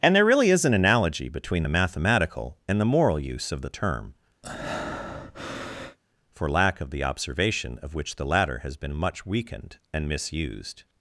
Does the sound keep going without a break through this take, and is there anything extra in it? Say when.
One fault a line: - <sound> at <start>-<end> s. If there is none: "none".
- breath at 4.4-6.0 s